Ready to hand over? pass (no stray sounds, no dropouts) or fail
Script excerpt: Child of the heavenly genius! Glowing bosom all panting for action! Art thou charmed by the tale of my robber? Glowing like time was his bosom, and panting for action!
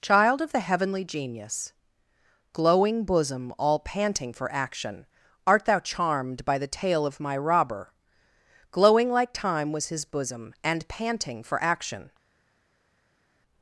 pass